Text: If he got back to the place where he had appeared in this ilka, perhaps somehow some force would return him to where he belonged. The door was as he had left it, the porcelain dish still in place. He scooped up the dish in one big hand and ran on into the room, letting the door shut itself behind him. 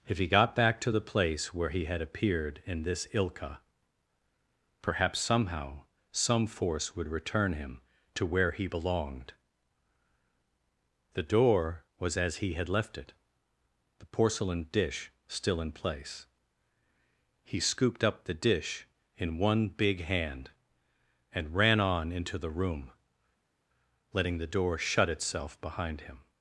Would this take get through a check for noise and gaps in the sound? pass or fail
pass